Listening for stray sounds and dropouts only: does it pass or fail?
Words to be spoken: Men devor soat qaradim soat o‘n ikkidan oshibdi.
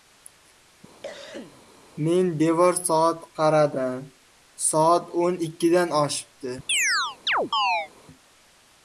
fail